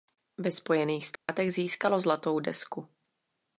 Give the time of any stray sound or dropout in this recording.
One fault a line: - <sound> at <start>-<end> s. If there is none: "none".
- dropout at 1.2-1.3 s